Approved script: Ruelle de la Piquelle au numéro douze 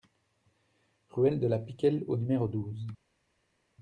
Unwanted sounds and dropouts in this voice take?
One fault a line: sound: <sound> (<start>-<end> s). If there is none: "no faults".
no faults